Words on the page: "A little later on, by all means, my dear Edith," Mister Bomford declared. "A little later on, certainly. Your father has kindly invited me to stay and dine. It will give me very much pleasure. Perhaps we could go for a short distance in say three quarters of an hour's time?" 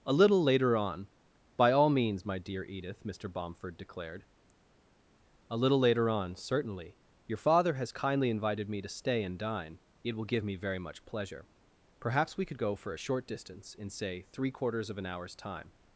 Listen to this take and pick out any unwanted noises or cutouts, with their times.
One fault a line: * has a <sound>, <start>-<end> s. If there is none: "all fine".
all fine